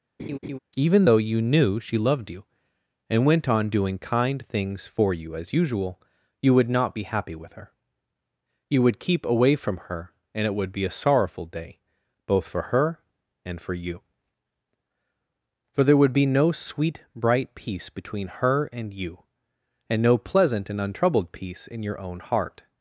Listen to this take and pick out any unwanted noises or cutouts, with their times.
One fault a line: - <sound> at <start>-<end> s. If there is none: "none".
- laugh at 0.2-0.6 s